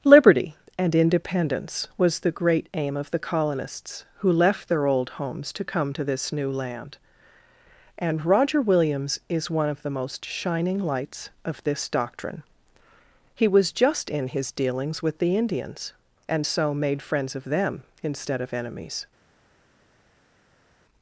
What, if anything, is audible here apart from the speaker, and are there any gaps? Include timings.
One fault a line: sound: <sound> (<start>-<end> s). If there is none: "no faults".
no faults